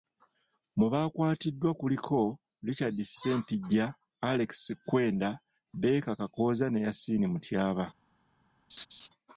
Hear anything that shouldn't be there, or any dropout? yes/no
yes